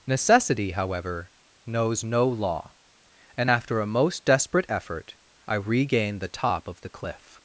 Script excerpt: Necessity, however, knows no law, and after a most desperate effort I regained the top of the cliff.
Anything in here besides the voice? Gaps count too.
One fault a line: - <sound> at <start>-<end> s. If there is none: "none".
none